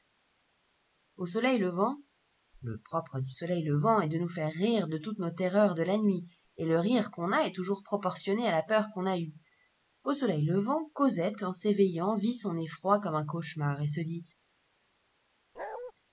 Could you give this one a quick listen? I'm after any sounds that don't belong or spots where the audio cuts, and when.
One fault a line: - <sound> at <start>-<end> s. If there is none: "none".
- bark at 15.6-15.9 s